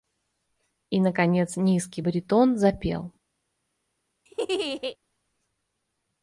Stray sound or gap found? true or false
true